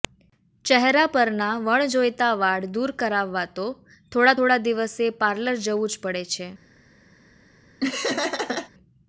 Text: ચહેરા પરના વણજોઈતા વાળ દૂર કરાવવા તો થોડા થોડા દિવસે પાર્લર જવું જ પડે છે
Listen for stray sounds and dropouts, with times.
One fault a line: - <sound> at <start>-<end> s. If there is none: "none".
- laugh at 7.8-8.7 s